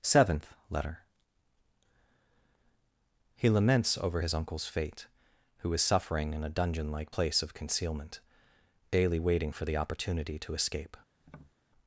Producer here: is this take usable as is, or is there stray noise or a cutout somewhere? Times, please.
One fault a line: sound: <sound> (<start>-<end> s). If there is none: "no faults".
sound: tap (11.2-11.5 s)